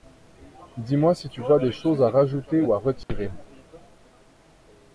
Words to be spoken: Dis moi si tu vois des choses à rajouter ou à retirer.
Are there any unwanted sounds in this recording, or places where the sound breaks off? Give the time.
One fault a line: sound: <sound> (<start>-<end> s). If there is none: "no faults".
sound: dropout (3.0-3.1 s)